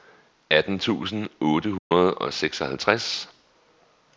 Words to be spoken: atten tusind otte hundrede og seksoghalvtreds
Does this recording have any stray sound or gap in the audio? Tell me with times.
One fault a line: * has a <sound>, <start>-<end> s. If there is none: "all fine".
* has a dropout, 1.8-1.9 s